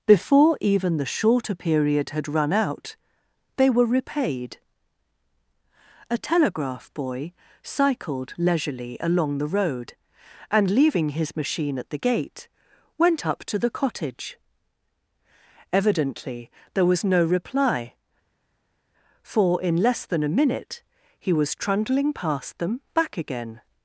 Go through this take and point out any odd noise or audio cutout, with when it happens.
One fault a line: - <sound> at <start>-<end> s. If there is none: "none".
none